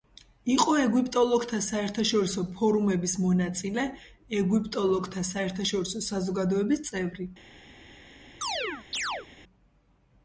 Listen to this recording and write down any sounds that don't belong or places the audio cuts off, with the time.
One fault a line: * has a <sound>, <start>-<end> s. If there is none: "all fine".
* has a chirp, 8.4-9.3 s